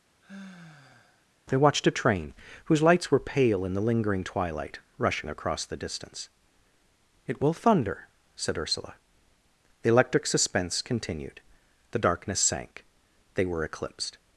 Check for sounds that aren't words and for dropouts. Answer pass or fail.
fail